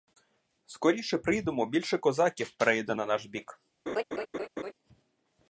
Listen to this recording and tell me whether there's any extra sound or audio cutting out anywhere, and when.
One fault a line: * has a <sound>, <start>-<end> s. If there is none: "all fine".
* has a laugh, 3.9-4.7 s